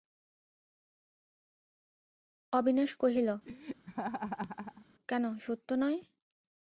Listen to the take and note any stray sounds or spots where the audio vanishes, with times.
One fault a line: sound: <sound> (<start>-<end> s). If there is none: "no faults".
sound: laugh (3.4-4.9 s)